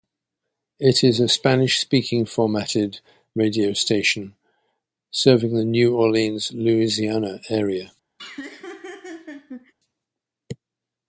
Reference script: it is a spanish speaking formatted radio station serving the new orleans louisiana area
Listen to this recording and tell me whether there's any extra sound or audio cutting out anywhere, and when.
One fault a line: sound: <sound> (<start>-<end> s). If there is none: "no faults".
sound: laugh (8.2-9.7 s)